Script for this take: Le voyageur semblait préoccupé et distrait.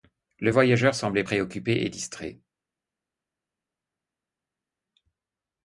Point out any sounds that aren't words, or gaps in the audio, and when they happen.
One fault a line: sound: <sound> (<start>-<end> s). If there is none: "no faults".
no faults